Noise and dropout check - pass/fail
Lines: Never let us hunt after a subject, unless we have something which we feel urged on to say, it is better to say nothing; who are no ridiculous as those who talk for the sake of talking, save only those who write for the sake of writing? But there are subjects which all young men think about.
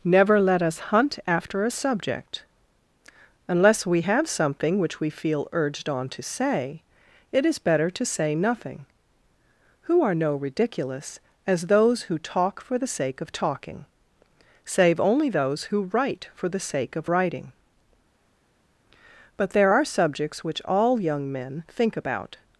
pass